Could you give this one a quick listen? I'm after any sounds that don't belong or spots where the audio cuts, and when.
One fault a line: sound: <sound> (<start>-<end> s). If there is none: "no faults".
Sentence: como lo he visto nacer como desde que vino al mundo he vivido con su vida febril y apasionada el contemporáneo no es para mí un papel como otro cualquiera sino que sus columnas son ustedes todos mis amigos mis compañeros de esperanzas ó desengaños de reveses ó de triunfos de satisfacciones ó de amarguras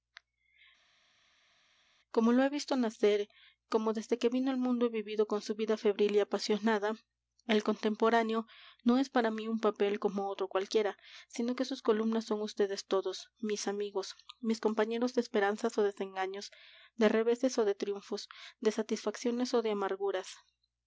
no faults